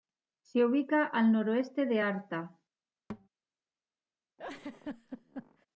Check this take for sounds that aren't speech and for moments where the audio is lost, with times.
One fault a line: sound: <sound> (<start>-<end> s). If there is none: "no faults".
sound: thud (3.1-3.3 s)
sound: laugh (4.4-5.7 s)